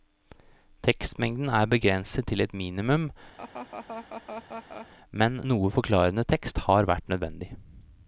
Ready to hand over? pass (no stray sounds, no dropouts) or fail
fail